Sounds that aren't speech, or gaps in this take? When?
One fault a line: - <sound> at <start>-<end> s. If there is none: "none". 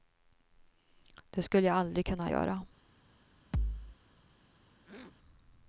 - thud at 3.5-4.0 s
- throat clearing at 4.8-5.2 s